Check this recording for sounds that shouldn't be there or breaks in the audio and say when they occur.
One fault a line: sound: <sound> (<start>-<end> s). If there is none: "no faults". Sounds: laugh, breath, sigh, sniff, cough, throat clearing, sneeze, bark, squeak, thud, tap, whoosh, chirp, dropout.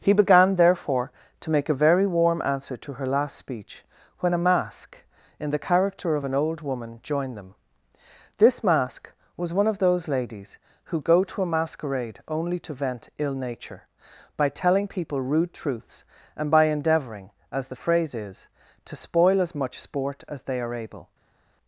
no faults